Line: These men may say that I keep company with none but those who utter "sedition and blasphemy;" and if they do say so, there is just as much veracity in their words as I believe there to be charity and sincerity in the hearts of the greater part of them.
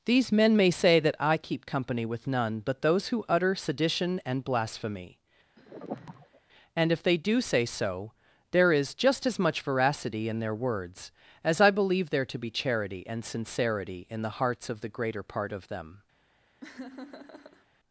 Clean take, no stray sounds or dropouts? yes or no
no